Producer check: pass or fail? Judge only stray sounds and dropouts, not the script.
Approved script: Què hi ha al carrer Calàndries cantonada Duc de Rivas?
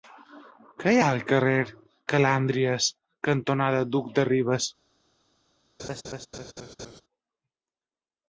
fail